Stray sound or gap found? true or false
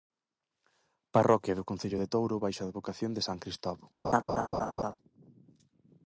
true